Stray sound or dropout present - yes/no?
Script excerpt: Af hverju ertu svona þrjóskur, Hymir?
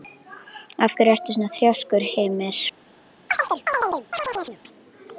yes